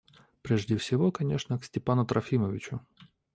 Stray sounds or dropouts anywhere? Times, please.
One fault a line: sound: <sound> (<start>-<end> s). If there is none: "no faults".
no faults